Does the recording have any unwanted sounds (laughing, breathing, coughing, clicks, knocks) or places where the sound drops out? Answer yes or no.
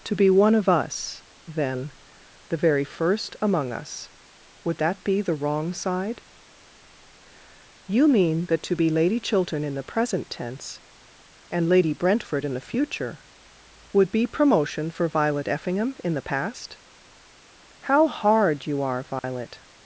yes